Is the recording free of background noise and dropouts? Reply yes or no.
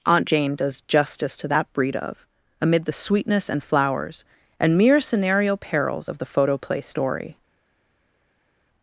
yes